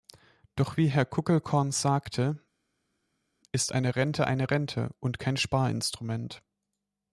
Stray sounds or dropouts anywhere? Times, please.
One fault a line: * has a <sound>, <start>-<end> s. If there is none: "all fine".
all fine